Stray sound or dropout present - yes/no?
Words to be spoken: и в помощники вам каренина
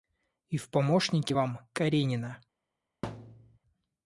yes